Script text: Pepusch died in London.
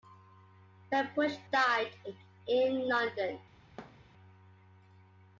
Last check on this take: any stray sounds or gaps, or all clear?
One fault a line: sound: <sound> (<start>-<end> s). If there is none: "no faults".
sound: thud (3.8-4.1 s)